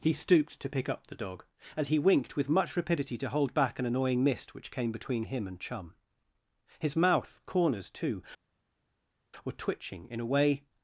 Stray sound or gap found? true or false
false